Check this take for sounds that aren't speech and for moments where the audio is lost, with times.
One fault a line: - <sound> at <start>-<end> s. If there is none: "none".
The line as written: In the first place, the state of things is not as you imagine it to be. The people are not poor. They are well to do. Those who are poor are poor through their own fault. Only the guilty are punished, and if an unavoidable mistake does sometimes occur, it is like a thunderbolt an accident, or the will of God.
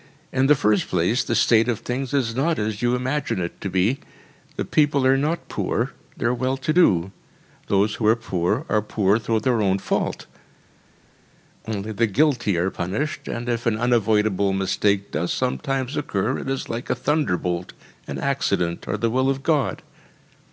none